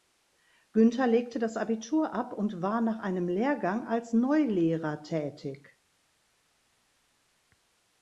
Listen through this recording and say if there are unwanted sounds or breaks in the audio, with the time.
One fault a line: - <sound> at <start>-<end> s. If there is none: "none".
none